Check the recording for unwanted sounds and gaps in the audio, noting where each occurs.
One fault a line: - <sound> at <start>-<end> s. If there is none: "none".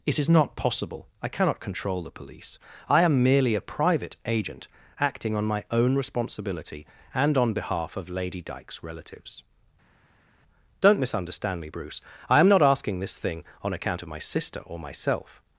none